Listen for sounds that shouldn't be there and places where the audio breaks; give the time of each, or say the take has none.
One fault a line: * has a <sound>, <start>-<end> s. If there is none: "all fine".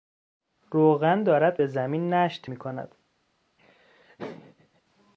* has a laugh, 3.6-4.8 s